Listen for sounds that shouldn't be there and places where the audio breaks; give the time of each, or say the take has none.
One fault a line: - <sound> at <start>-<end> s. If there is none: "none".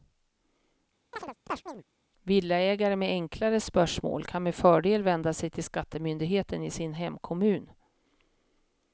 - chirp at 1.1-1.8 s